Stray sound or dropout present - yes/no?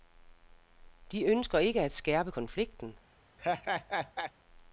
yes